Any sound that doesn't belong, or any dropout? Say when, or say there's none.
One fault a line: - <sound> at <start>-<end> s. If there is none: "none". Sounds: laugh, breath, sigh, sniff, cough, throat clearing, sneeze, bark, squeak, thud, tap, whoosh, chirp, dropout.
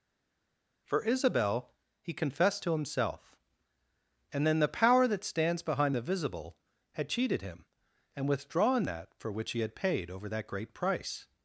none